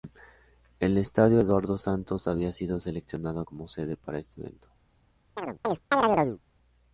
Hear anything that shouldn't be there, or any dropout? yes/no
yes